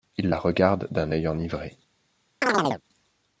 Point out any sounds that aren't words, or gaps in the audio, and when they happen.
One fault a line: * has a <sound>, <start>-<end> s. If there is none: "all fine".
* has a chirp, 2.4-2.8 s